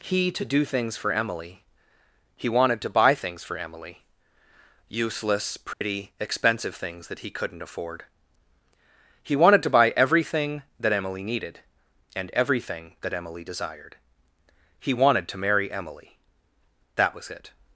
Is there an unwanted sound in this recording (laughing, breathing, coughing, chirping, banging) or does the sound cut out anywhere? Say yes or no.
yes